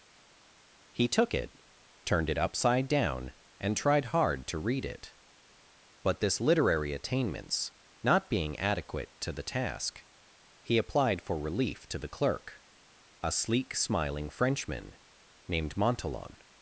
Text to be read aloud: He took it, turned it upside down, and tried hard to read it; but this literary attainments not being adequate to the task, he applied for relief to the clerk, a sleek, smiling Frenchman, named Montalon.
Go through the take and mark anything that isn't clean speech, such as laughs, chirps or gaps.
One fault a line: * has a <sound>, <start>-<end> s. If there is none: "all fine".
all fine